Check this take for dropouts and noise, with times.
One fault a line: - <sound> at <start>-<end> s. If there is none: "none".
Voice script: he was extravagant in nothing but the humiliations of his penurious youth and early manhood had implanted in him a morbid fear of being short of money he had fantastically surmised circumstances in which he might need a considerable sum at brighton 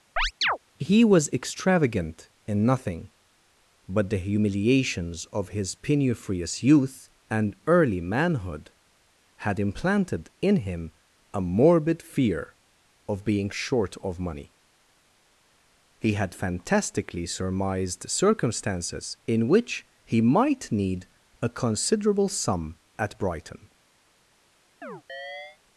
- chirp at 0.2-0.6 s
- chirp at 24.8-25.6 s